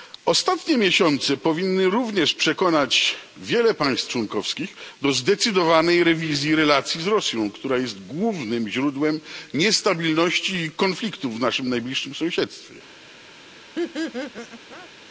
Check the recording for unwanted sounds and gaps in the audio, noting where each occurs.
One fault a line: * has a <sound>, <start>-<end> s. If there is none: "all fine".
* has a laugh, 13.7-14.9 s